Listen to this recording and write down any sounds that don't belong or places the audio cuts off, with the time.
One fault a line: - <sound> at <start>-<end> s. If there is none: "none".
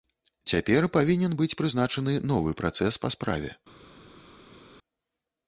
none